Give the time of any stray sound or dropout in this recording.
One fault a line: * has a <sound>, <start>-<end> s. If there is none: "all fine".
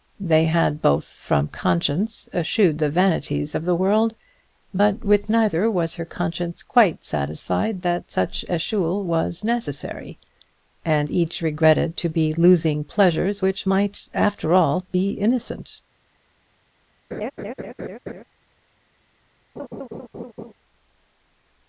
* has a laugh, 17.1-18.2 s
* has a laugh, 19.6-20.5 s